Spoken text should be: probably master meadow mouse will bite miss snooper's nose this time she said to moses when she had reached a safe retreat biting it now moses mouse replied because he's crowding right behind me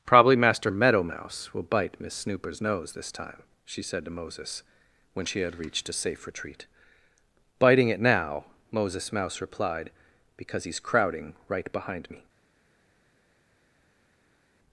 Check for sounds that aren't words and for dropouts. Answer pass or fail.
pass